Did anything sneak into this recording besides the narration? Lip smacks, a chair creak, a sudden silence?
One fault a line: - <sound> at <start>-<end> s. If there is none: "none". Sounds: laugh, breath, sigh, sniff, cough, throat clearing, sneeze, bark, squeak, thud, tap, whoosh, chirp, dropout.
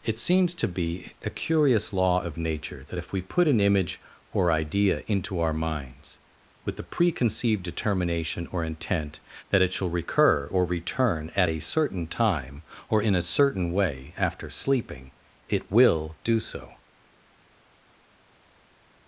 none